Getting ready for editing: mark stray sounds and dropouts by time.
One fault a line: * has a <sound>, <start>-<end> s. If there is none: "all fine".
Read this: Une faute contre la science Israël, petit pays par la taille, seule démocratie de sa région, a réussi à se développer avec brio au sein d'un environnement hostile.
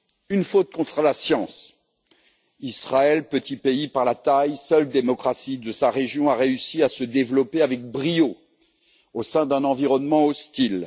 all fine